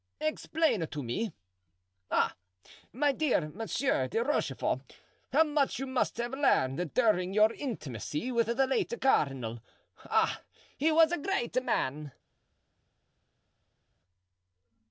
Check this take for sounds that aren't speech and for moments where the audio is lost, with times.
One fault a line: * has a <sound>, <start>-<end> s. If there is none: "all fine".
all fine